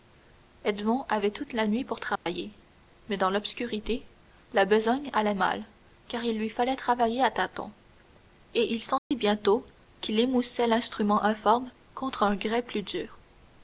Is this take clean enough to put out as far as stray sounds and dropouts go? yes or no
no